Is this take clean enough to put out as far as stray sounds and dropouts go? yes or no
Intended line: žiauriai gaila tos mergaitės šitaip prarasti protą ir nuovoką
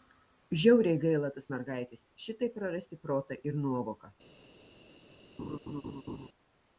no